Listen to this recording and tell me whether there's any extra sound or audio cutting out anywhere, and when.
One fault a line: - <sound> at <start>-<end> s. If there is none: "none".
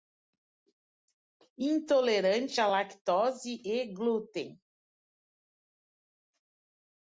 none